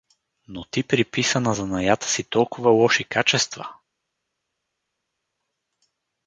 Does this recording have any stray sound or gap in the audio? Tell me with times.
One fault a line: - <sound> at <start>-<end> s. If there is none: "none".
none